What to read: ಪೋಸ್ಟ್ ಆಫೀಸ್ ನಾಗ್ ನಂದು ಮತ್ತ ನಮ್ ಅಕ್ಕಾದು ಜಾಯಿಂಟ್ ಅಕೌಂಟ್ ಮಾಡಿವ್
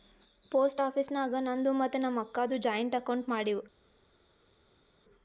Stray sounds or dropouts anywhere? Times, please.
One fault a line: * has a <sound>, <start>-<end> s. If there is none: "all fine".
all fine